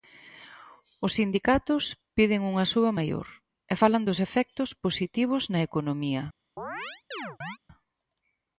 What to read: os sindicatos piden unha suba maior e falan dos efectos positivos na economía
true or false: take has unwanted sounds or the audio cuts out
true